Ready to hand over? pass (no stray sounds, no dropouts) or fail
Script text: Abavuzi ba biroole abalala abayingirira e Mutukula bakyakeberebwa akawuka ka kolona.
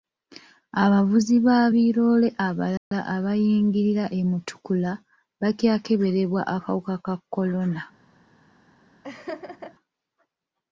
fail